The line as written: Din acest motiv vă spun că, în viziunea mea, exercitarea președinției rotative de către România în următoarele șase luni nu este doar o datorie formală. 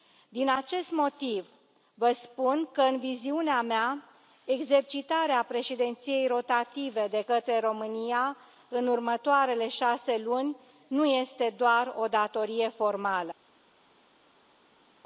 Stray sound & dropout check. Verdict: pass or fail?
pass